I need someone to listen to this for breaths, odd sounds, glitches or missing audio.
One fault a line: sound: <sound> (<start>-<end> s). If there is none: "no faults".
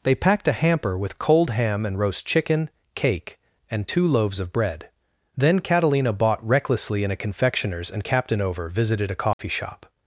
sound: dropout (9.3-9.4 s)